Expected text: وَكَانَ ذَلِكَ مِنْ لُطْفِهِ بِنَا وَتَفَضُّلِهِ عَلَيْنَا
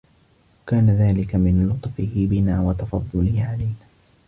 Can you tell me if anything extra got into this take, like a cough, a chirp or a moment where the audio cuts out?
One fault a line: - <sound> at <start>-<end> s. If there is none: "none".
none